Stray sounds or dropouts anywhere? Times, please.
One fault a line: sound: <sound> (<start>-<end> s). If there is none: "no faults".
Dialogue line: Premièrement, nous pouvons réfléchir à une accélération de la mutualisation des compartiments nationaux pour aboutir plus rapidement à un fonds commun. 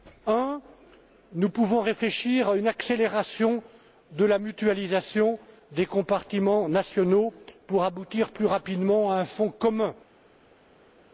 no faults